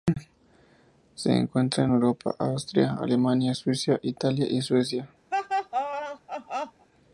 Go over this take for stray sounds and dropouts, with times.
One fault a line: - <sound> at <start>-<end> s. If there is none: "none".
- laugh at 5.3-6.9 s